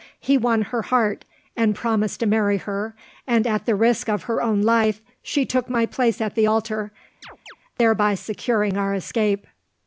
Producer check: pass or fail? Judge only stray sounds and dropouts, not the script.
fail